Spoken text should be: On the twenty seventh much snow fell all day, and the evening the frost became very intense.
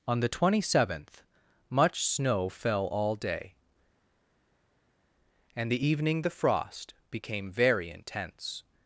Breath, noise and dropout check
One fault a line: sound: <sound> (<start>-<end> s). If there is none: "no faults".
no faults